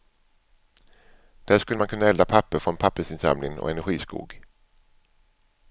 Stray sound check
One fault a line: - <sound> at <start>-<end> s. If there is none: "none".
none